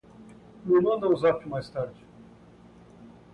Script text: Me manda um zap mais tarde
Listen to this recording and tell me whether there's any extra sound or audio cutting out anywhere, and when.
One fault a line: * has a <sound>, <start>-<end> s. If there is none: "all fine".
all fine